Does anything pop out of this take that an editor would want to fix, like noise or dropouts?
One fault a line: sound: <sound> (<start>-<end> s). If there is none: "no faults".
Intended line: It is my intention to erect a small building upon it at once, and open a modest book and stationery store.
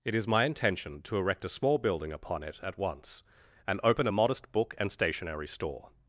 no faults